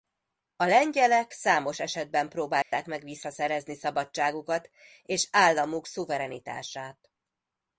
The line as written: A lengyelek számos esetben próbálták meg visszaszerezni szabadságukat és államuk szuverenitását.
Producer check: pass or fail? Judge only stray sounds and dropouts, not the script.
fail